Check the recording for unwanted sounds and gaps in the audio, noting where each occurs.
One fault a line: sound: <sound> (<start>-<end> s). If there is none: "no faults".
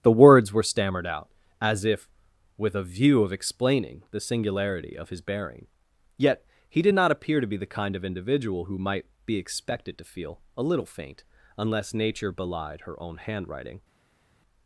no faults